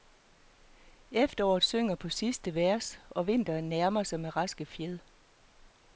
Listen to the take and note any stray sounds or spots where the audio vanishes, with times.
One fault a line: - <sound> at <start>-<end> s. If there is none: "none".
none